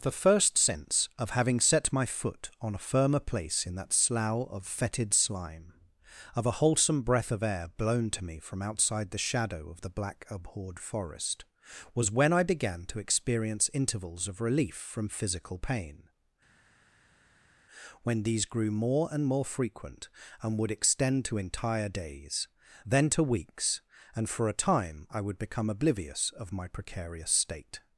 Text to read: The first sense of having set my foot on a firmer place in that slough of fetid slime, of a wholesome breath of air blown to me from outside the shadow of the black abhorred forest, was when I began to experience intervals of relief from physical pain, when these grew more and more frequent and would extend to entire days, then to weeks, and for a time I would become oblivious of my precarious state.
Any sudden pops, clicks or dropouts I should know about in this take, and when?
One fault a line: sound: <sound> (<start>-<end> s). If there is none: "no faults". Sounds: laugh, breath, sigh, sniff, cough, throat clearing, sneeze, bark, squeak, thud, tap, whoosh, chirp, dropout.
no faults